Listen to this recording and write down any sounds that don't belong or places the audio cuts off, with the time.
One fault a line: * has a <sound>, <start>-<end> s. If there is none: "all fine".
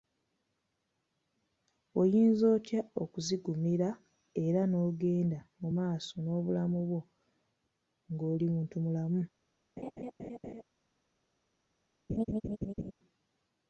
* has a laugh, 9.8-10.6 s
* has a laugh, 12.1-12.9 s